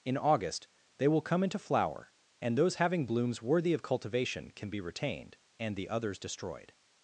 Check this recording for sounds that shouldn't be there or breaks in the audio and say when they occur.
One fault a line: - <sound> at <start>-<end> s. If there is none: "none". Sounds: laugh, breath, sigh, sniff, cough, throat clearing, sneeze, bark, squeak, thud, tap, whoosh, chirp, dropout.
none